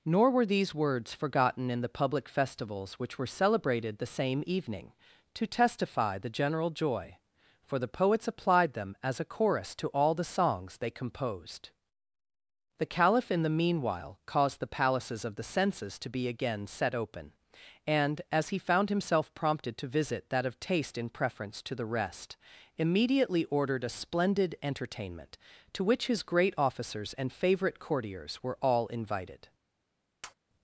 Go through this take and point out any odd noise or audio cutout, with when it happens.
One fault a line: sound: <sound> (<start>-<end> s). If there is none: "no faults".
sound: tap (30.2-30.3 s)